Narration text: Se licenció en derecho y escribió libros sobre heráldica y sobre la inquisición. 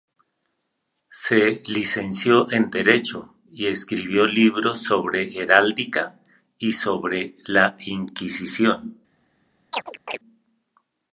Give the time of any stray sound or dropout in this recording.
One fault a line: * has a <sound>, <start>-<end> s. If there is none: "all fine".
* has a chirp, 9.7-10.2 s